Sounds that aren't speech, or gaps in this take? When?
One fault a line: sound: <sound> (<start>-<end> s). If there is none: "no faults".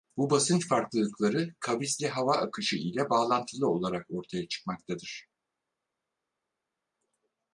no faults